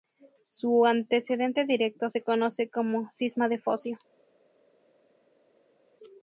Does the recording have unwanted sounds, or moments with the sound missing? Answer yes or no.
no